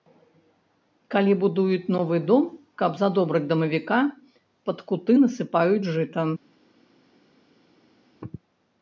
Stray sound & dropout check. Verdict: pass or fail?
pass